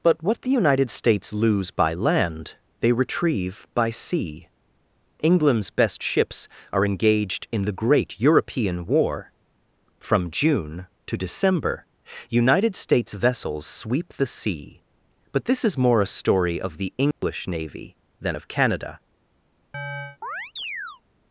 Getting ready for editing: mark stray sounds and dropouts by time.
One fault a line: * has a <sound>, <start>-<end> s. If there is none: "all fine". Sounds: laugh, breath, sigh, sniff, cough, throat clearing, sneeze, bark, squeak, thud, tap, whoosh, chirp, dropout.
* has a dropout, 17.1-17.2 s
* has a chirp, 19.7-21.0 s